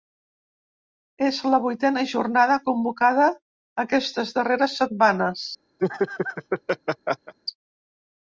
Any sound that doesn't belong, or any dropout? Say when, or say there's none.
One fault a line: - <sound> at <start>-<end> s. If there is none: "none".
- laugh at 5.8-7.3 s